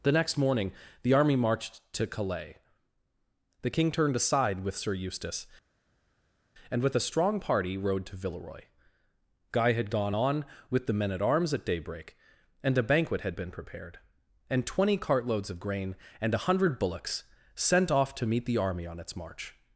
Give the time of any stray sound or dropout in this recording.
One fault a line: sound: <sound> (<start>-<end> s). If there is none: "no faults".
no faults